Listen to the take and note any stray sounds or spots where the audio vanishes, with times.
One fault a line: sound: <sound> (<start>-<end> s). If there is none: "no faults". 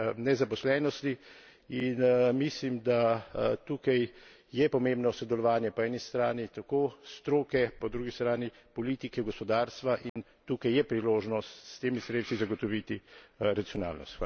sound: dropout (10.1-10.2 s)